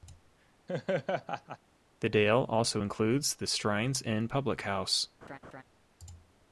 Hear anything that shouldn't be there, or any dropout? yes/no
yes